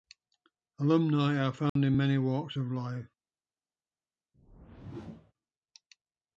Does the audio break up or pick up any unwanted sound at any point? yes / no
yes